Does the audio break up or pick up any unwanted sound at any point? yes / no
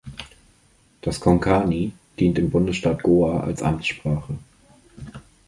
no